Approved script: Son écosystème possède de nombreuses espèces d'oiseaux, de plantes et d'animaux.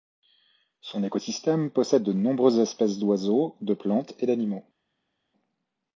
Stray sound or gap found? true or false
false